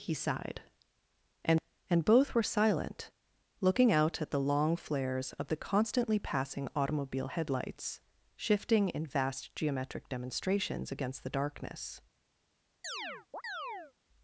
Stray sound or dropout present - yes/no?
yes